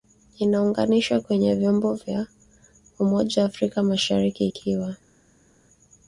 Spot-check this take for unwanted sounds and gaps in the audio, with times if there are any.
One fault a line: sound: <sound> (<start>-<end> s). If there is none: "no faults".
no faults